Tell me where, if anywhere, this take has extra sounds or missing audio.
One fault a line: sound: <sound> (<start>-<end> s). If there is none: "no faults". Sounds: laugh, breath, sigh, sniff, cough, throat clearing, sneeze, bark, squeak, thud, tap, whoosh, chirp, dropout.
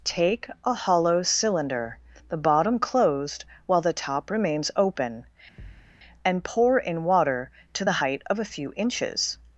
sound: thud (5.6-6.0 s)